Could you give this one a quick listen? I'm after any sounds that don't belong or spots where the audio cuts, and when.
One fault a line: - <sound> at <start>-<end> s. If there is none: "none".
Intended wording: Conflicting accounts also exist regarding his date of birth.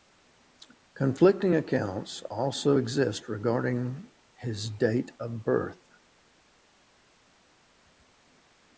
none